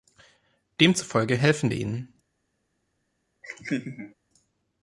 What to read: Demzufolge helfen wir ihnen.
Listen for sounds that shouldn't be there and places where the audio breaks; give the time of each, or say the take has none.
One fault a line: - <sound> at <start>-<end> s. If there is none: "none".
- laugh at 3.4-4.1 s